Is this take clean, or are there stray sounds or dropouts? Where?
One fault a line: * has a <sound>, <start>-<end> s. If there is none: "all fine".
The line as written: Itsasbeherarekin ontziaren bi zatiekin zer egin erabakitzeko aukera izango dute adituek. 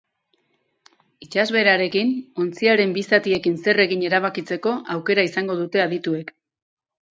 all fine